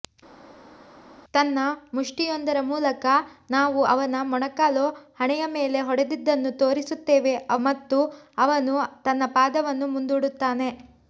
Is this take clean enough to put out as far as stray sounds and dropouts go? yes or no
yes